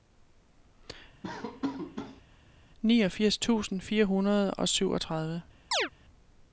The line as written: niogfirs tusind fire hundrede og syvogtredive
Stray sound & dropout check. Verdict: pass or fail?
fail